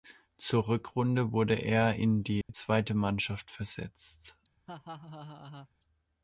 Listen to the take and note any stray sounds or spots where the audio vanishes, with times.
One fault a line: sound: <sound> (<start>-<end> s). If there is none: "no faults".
sound: dropout (2.4-2.5 s)
sound: laugh (4.7-5.7 s)